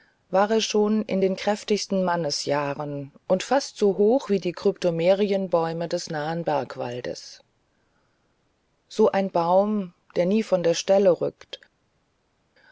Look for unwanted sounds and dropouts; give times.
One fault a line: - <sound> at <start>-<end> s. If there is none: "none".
none